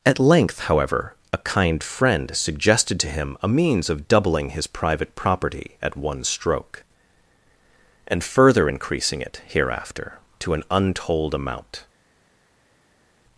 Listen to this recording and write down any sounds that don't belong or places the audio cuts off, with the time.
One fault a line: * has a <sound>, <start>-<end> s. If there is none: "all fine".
all fine